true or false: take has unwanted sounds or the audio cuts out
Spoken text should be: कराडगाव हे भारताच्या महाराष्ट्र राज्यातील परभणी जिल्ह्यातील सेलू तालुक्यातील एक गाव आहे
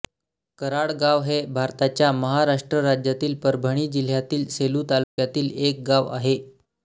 true